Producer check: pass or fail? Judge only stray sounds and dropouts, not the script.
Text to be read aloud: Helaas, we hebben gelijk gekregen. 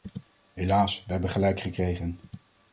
pass